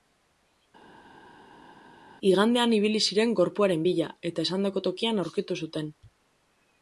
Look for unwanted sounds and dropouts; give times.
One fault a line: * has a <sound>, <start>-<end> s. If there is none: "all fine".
all fine